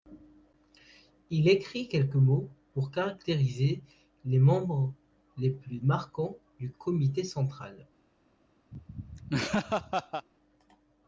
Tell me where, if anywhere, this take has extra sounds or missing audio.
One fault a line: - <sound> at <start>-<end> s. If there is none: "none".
- laugh at 8.7-10.3 s